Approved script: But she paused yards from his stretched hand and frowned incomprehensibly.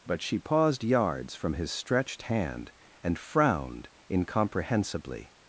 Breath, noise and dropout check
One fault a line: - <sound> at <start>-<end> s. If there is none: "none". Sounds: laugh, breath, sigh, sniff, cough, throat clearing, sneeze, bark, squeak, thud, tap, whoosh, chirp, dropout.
none